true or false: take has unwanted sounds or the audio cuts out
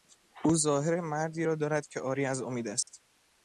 true